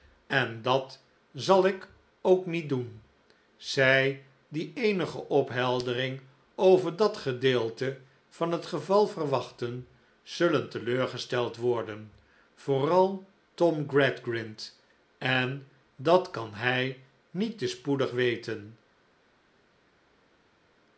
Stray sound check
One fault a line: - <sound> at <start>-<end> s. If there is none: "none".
none